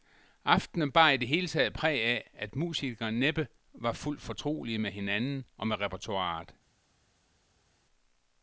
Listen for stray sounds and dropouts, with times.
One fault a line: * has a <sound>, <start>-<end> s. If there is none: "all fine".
all fine